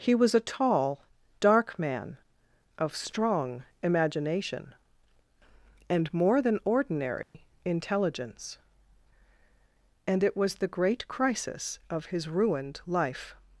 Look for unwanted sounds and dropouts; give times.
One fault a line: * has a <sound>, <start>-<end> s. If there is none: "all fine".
* has a dropout, 7.2-7.3 s